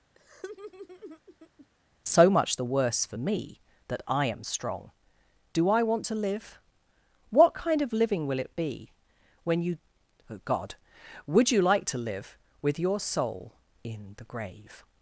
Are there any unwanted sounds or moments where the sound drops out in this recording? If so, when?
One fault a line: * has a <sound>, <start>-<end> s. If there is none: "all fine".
* has a laugh, 0.1-1.7 s